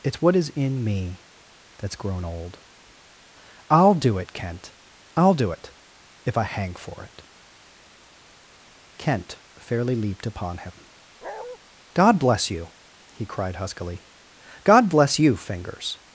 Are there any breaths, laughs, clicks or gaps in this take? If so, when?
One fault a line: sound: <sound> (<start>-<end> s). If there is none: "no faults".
sound: bark (11.2-11.6 s)